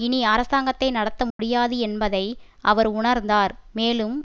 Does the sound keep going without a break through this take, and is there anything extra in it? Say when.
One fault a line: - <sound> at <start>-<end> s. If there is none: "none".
- dropout at 1.3-1.4 s